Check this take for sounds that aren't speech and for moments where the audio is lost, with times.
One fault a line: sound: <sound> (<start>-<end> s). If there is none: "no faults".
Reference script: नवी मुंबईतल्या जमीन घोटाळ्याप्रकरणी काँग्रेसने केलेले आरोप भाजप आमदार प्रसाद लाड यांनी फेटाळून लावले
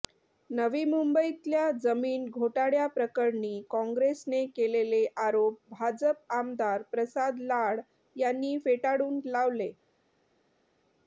no faults